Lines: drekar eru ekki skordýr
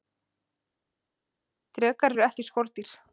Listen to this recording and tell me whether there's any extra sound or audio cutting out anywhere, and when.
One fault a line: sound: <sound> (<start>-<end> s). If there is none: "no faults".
no faults